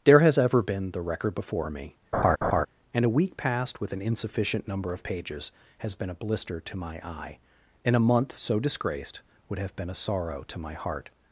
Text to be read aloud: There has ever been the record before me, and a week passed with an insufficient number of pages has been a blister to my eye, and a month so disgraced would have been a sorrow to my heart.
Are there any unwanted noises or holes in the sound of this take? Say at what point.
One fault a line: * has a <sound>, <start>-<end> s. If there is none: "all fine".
* has a laugh, 2.1-2.7 s